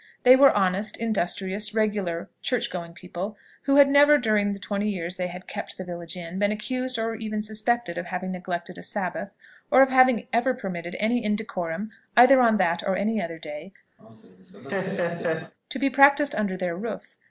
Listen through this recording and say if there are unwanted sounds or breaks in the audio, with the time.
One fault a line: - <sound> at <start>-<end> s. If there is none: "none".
- laugh at 14.0-15.5 s